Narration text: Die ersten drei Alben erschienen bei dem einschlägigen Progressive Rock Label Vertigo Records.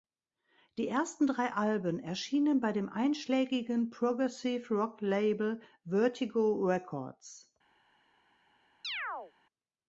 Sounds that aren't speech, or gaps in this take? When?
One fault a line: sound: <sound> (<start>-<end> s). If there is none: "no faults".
sound: chirp (8.8-9.3 s)